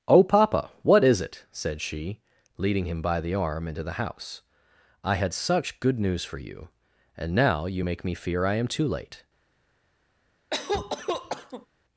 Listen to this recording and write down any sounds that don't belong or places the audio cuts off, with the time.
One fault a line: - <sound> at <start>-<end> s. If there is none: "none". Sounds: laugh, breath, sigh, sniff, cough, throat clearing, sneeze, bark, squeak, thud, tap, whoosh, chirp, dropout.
- cough at 10.5-11.7 s